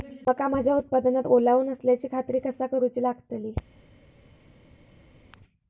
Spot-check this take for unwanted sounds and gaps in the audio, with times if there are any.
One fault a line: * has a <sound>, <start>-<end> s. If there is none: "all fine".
all fine